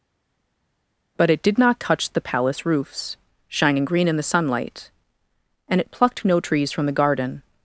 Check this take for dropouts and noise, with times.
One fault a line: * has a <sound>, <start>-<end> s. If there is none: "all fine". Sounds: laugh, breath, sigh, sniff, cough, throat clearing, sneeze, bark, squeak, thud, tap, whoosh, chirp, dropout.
all fine